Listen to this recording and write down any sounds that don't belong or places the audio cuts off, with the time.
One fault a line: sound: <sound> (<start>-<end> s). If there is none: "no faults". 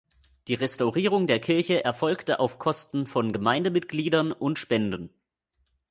no faults